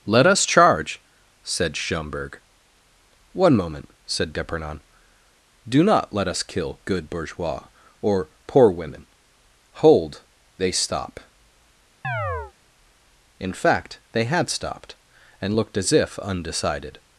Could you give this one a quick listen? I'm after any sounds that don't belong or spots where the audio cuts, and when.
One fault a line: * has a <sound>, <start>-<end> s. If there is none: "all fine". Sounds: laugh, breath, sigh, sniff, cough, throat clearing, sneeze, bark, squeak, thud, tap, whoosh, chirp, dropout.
* has a chirp, 12.0-12.5 s